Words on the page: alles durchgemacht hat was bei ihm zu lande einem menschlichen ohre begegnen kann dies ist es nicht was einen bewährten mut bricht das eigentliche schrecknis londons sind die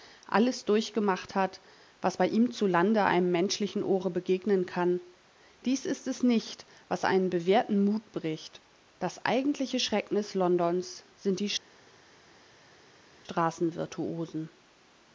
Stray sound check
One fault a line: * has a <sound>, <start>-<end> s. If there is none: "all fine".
all fine